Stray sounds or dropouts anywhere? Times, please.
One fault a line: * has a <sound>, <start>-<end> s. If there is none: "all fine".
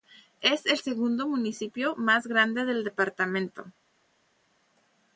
all fine